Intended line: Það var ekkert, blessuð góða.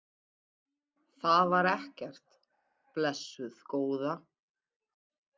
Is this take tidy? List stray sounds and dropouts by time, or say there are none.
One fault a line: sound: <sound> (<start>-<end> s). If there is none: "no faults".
no faults